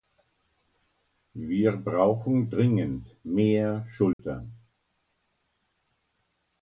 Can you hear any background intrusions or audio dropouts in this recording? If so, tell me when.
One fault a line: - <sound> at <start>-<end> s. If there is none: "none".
- dropout at 4.1-4.2 s